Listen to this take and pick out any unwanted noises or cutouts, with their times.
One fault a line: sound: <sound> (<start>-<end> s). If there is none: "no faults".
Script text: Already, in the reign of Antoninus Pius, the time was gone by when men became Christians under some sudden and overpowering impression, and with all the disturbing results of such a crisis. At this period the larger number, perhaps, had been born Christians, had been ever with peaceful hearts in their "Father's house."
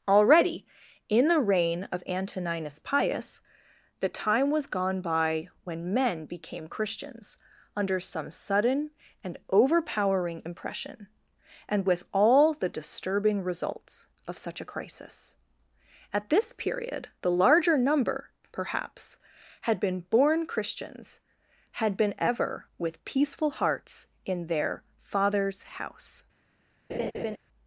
sound: laugh (26.9-27.4 s)